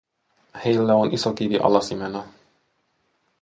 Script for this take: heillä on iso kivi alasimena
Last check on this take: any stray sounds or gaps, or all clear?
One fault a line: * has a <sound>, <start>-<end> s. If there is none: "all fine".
all fine